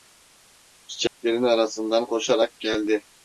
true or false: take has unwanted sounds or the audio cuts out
true